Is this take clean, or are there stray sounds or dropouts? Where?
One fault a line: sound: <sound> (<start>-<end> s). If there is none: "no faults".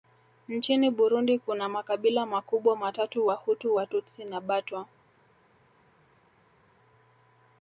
no faults